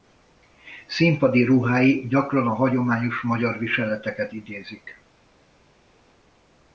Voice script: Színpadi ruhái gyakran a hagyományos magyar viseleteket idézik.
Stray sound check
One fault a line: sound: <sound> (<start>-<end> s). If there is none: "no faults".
no faults